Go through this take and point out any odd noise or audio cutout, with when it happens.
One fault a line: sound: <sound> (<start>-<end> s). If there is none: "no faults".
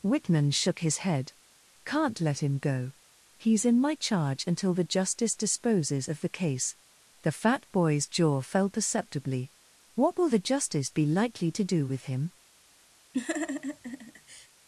sound: laugh (13.1-14.5 s)